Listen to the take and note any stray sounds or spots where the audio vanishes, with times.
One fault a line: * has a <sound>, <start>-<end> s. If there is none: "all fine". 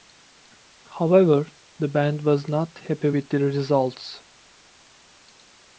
all fine